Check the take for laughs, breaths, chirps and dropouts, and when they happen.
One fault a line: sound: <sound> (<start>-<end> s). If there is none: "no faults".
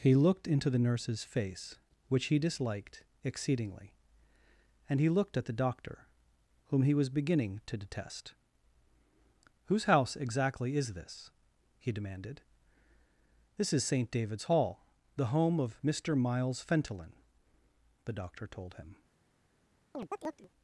sound: chirp (19.9-20.5 s)